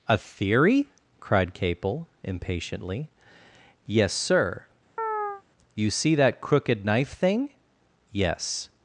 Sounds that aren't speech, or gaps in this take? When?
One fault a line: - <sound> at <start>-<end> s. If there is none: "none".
- chirp at 5.0-5.4 s